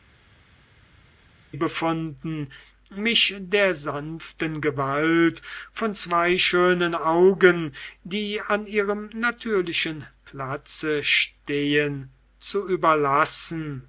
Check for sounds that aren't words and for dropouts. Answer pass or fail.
pass